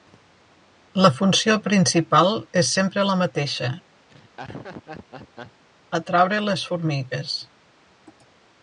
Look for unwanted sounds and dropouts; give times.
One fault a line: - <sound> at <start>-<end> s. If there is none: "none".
- laugh at 4.1-5.6 s